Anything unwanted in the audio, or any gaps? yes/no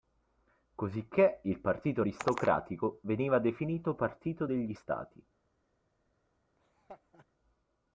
yes